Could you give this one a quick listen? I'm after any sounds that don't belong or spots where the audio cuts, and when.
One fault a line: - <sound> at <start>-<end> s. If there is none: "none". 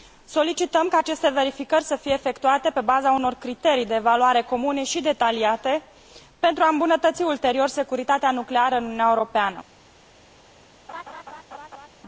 - laugh at 10.9-11.9 s